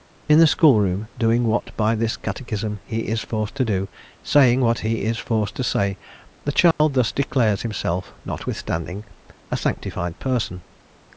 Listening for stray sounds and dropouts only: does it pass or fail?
fail